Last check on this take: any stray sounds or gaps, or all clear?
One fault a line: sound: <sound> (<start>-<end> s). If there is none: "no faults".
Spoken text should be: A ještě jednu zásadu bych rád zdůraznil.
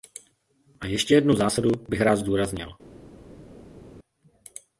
no faults